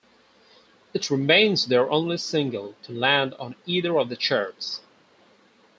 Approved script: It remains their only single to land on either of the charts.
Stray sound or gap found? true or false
false